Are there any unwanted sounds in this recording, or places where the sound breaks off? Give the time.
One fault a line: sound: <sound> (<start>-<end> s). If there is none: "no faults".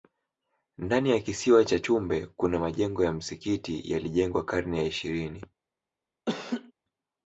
sound: laugh (6.3-6.7 s)